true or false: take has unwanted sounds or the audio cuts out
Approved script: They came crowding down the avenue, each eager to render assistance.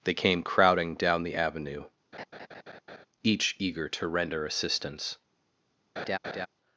true